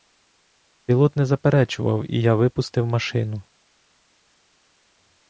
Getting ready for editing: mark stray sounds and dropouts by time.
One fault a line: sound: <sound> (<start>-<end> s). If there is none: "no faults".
no faults